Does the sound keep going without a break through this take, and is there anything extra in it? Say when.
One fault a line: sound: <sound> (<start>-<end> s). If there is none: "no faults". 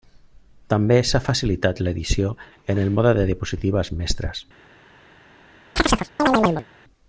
sound: chirp (5.8-6.7 s)